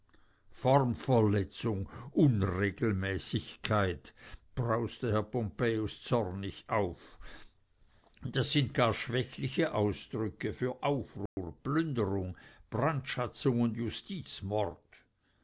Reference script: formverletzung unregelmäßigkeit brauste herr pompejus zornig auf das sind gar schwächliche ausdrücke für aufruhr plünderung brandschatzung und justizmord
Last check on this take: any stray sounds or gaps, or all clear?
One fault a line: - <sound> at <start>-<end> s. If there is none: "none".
- dropout at 11.3-11.4 s